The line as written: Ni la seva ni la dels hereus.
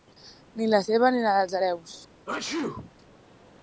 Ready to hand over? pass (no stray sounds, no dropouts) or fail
fail